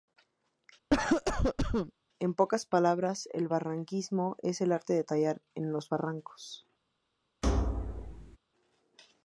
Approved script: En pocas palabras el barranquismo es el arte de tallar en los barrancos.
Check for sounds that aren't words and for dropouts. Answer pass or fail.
fail